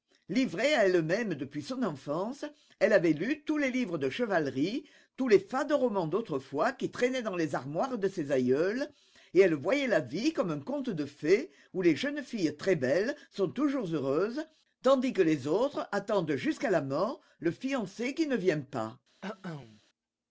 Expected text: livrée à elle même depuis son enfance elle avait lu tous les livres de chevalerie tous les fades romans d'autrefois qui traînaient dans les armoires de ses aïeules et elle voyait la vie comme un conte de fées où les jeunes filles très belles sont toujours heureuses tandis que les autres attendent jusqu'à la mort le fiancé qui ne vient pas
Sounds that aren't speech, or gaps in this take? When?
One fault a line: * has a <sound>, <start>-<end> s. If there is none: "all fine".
* has a cough, 19.2-19.8 s